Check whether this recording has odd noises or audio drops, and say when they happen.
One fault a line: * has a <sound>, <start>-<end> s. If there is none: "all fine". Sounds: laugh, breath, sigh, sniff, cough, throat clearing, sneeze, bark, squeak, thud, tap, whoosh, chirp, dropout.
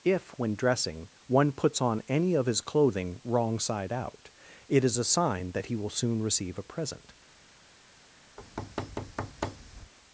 * has a thud, 8.4-9.9 s